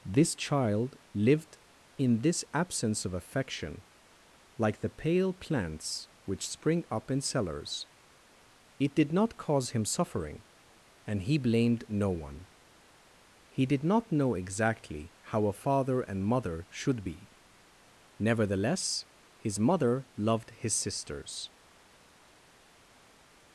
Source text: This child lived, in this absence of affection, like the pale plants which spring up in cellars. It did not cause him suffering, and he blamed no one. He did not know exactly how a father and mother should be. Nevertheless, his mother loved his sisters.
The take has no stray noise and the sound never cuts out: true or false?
true